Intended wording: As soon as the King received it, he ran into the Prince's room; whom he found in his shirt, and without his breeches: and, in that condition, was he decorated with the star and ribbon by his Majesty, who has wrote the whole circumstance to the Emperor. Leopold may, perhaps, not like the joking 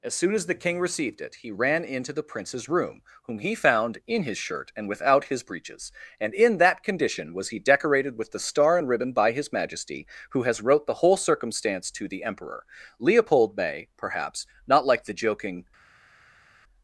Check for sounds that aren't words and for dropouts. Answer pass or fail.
pass